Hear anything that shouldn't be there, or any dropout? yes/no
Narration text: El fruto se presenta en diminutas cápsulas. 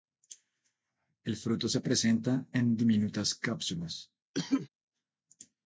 yes